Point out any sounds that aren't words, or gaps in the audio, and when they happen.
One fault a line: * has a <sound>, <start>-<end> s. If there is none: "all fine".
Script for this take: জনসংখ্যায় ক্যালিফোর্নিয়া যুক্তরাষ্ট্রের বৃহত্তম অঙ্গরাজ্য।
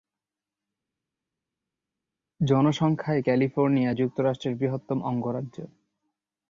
all fine